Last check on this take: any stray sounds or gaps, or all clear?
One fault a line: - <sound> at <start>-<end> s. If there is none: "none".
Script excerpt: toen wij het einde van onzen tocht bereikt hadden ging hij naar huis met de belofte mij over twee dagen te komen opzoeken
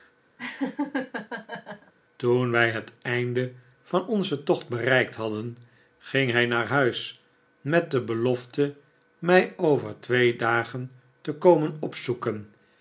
- laugh at 0.4-1.9 s